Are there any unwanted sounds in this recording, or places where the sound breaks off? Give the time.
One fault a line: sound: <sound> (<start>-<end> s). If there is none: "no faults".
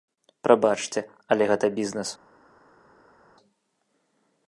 no faults